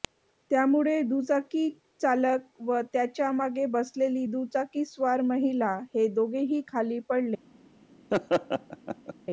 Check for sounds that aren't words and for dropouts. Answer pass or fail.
fail